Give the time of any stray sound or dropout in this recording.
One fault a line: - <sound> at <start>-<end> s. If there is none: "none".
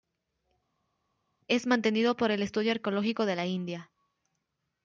none